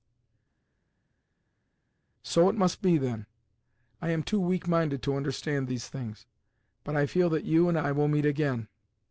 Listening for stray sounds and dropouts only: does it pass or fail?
pass